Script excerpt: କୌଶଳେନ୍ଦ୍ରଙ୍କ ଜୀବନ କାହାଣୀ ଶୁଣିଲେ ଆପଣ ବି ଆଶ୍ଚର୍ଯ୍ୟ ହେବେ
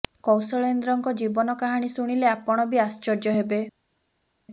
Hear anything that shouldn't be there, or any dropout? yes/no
no